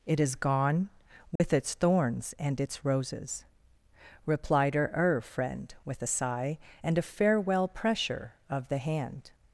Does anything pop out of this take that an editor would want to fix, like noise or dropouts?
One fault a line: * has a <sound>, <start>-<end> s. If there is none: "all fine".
* has a dropout, 1.4-1.4 s